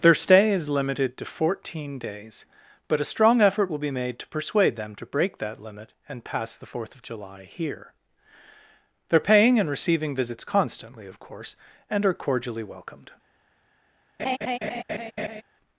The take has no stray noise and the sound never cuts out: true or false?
false